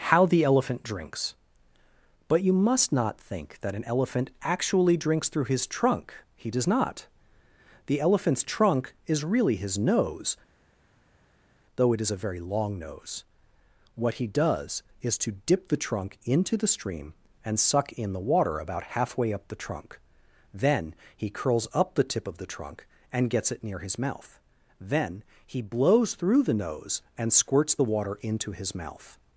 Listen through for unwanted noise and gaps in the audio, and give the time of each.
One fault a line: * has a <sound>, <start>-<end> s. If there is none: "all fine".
all fine